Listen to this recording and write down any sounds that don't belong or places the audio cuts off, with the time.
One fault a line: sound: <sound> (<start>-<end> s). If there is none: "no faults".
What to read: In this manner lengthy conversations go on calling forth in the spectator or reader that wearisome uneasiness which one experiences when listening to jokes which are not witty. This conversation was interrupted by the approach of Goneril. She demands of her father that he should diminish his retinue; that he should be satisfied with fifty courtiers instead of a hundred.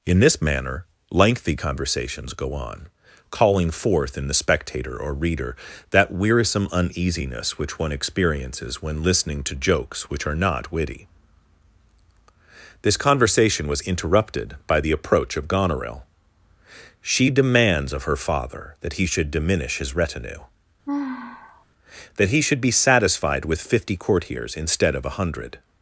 sound: sigh (20.9-21.7 s)